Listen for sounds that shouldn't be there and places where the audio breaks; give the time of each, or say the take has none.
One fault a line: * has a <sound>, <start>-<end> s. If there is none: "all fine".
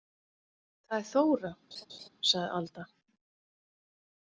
* has a laugh, 1.7-2.1 s